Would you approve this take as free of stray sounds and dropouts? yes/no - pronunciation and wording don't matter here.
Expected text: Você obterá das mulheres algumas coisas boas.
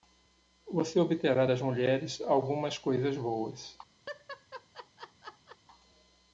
no